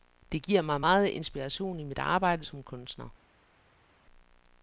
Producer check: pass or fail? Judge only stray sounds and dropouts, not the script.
pass